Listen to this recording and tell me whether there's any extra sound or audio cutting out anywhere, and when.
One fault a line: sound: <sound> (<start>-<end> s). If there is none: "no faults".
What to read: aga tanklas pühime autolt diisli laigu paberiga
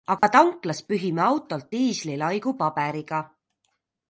sound: dropout (0.2-0.2 s)